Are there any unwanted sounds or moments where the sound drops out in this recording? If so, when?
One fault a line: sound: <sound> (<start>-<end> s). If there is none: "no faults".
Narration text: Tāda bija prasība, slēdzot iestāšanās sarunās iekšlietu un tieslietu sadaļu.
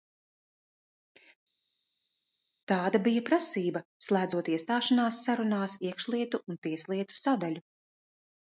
no faults